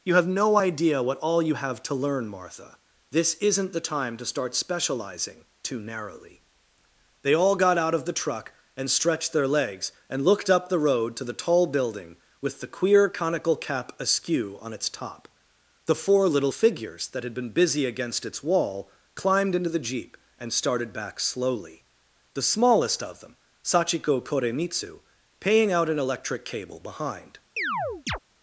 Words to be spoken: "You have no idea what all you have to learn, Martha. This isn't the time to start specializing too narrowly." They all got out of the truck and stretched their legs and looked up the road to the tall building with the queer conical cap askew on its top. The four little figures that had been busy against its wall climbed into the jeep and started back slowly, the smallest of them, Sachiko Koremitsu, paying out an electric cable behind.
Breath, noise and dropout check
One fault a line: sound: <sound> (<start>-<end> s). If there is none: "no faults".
sound: chirp (27.6-28.2 s)